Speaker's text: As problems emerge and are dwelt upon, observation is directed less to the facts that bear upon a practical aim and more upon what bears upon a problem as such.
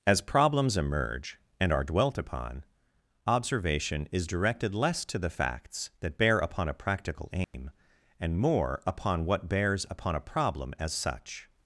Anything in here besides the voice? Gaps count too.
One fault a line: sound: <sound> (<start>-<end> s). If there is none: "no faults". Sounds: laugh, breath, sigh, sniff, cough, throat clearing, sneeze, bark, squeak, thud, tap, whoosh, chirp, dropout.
sound: dropout (7.4-7.5 s)